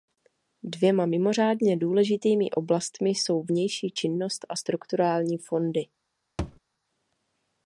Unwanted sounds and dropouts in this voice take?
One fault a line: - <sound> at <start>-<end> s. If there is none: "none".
- thud at 6.4-6.6 s